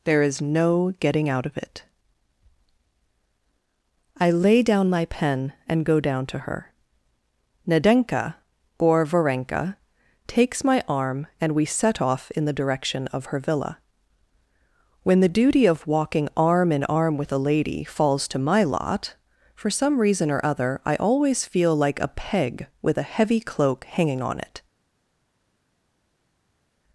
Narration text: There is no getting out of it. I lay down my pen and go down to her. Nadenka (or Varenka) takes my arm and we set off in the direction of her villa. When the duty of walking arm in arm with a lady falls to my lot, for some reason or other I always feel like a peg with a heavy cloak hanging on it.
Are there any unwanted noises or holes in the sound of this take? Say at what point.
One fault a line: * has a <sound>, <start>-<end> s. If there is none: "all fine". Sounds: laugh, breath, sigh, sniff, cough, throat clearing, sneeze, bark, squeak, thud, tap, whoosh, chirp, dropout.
all fine